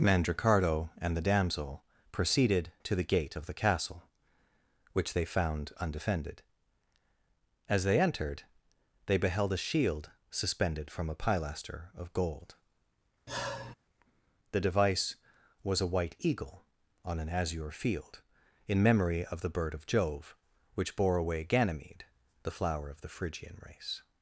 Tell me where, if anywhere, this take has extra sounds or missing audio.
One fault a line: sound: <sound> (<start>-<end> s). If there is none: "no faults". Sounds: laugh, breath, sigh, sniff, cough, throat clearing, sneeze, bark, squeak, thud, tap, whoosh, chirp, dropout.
sound: sigh (13.3-13.7 s)